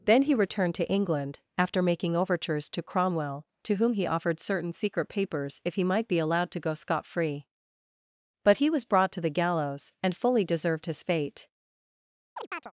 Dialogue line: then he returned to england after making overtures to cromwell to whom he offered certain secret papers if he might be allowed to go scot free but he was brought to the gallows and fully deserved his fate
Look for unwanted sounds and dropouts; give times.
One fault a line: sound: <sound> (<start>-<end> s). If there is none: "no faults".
sound: chirp (12.4-12.7 s)